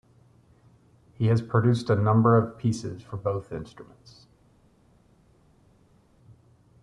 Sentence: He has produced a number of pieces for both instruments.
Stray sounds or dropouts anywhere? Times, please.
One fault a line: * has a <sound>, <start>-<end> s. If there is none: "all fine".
all fine